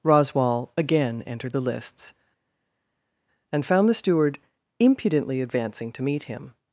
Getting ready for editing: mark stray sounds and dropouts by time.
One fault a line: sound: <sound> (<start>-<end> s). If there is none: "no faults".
no faults